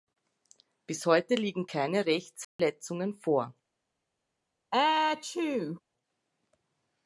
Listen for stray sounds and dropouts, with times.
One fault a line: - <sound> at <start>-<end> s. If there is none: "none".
- dropout at 2.4-2.6 s
- sneeze at 4.7-5.8 s